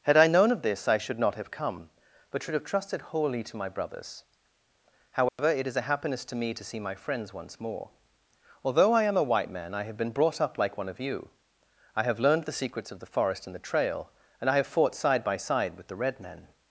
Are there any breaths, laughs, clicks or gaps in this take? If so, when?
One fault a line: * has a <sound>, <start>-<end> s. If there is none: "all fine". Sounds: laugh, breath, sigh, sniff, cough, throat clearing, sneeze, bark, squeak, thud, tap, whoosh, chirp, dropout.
* has a dropout, 5.3-5.4 s